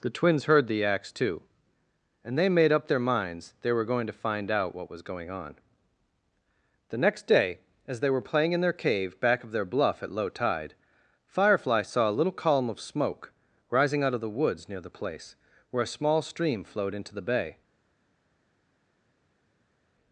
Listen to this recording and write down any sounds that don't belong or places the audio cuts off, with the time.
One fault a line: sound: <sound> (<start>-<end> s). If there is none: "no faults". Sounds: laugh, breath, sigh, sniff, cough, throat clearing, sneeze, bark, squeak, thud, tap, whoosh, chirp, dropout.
no faults